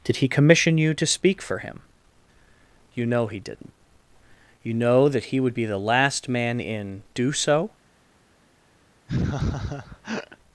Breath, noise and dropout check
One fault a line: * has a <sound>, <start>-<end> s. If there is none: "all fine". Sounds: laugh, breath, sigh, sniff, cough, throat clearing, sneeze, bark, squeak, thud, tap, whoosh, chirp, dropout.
* has a laugh, 9.1-10.4 s